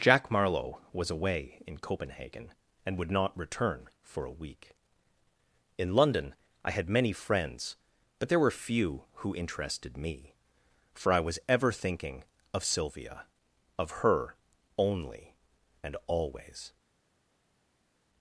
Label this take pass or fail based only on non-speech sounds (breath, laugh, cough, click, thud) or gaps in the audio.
pass